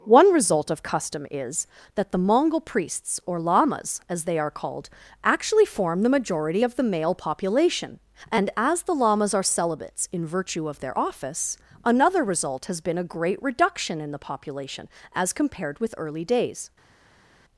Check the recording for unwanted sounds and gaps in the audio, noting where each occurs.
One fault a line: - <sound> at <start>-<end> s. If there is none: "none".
none